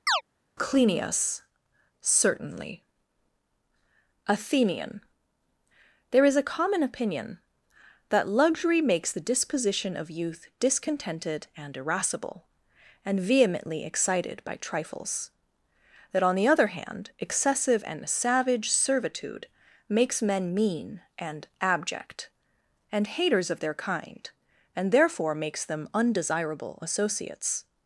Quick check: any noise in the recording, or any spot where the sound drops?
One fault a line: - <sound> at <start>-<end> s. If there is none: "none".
- chirp at 0.1-0.2 s